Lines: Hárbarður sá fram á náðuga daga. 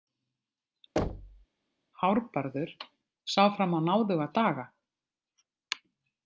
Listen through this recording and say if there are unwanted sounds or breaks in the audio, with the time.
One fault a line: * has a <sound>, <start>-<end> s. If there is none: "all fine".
* has a thud, 1.0-1.5 s